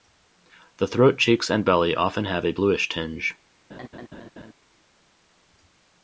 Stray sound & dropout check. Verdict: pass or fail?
fail